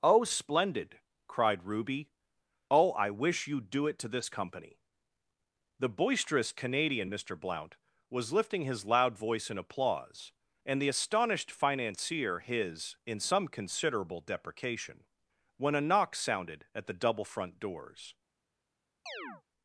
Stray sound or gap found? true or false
true